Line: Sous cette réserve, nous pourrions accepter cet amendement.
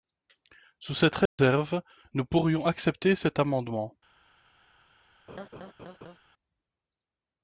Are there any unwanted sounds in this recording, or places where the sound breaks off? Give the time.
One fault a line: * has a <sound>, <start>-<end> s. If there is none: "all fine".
* has a dropout, 1.3-1.4 s
* has a laugh, 5.3-6.2 s